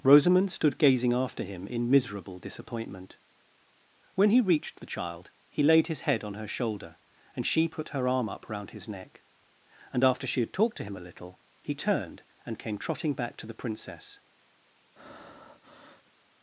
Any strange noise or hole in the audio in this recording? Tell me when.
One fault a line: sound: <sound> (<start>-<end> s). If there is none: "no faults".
sound: breath (15.0-16.1 s)